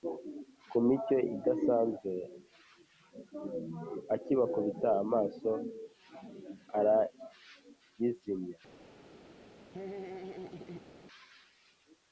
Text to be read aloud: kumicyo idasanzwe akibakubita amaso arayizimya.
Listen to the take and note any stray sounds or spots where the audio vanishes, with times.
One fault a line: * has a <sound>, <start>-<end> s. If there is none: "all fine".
* has a laugh, 9.7-11.0 s